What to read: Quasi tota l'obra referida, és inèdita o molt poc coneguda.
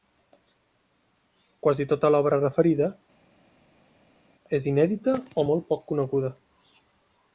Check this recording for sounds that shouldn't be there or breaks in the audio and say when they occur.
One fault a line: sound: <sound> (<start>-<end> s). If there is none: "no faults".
no faults